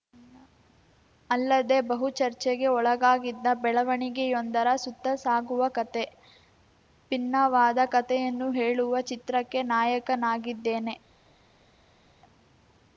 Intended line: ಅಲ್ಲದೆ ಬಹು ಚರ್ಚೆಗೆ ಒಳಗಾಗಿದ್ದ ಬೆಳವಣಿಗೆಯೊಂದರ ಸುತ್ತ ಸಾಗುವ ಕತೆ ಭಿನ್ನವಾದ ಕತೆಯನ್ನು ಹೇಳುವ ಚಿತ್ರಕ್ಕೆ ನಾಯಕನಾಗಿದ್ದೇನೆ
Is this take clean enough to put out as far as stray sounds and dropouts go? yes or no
yes